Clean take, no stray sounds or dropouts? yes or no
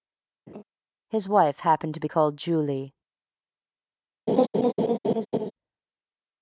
no